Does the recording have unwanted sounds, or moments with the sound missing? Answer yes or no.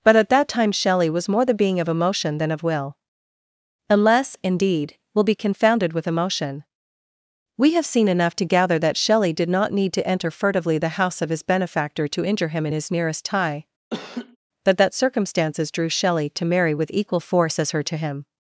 yes